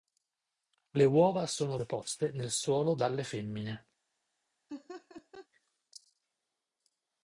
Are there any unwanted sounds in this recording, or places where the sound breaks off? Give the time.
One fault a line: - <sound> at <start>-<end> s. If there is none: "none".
- laugh at 4.7-5.5 s